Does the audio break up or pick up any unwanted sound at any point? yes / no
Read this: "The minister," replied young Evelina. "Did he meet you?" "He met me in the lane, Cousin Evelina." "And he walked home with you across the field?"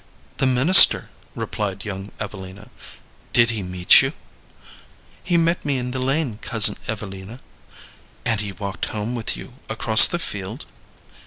no